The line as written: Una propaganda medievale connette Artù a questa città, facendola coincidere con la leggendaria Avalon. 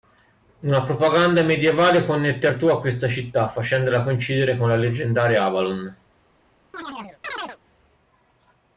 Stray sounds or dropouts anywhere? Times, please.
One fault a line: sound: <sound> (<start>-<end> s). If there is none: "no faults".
sound: chirp (6.7-7.6 s)